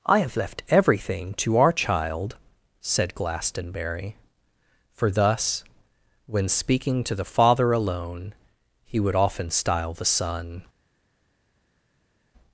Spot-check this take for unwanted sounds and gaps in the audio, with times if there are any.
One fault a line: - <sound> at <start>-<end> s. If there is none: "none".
none